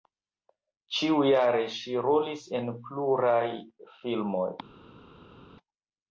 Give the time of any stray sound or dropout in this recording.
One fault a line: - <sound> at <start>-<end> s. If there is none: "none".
none